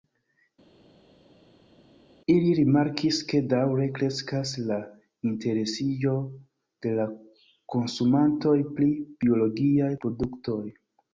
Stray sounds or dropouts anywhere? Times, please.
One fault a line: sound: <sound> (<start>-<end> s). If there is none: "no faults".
no faults